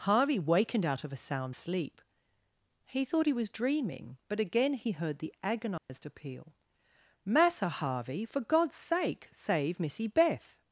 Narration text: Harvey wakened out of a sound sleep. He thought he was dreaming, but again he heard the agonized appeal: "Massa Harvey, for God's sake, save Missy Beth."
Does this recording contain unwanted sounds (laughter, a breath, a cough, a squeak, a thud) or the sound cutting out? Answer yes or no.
yes